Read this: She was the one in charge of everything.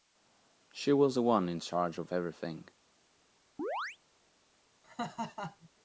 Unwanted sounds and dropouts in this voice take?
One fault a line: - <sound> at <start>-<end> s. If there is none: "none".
- chirp at 3.6-4.0 s
- laugh at 4.8-5.7 s